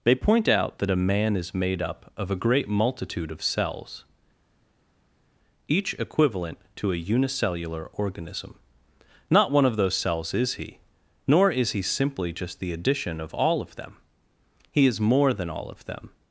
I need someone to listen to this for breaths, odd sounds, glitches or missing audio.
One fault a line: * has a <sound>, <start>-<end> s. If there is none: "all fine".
all fine